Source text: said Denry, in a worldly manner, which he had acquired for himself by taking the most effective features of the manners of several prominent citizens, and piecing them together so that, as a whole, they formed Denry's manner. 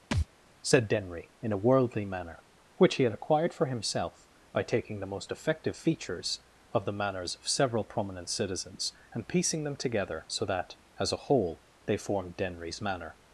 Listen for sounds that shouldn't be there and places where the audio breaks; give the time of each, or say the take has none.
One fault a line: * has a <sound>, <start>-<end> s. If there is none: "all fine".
* has a thud, 0.1-0.3 s